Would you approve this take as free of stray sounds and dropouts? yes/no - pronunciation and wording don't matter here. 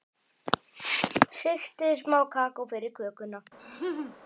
no